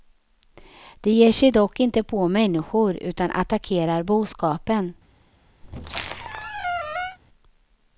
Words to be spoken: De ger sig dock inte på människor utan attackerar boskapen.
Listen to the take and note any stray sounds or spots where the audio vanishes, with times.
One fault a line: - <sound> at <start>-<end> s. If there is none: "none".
- squeak at 5.6-7.2 s